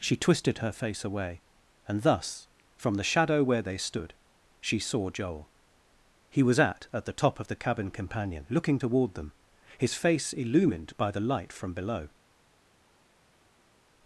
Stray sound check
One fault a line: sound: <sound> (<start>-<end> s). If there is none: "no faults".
no faults